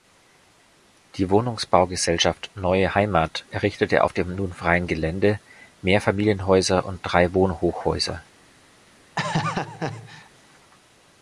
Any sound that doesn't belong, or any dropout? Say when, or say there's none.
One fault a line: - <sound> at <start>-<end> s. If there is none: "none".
- laugh at 9.2-10.3 s